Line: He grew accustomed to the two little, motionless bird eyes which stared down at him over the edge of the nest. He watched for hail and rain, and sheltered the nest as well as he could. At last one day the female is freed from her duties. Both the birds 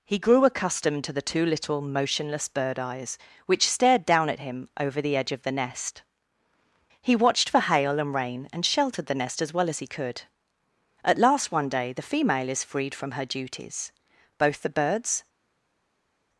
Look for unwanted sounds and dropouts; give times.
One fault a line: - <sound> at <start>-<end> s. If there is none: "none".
none